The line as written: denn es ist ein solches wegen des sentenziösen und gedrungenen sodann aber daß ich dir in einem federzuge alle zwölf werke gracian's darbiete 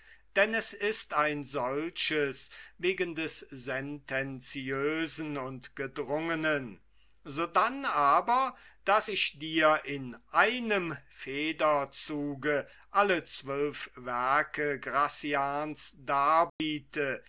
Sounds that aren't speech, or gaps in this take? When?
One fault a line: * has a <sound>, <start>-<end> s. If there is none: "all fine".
* has a dropout, 16.5-16.6 s